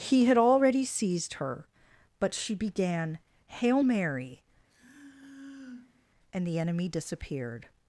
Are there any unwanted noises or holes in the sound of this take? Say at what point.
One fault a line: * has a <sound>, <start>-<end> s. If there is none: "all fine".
* has a sigh, 4.7-6.1 s